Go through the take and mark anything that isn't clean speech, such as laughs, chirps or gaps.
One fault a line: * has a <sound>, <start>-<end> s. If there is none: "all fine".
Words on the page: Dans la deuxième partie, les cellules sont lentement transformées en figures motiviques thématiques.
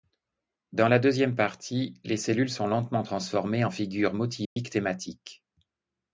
* has a dropout, 4.4-4.6 s